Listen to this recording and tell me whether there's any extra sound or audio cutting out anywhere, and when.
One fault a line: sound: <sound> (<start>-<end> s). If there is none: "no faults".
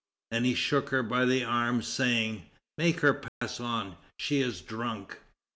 sound: dropout (3.3-3.4 s)